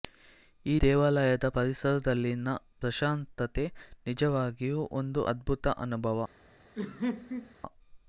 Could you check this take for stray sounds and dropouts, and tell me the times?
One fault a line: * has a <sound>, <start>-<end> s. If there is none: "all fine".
* has a laugh, 6.7-7.5 s